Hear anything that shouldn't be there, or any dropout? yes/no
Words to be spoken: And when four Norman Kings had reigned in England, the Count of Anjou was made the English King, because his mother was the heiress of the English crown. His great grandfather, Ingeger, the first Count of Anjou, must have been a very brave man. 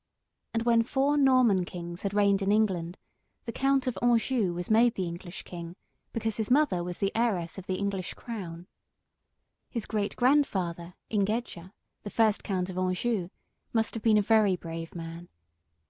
no